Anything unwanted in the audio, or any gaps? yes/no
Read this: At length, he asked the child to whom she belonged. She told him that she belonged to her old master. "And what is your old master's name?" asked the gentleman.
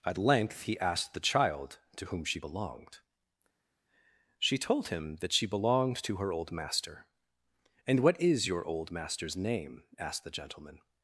no